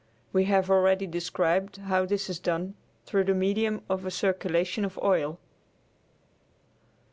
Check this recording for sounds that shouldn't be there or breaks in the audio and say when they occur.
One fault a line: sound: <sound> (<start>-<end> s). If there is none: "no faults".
no faults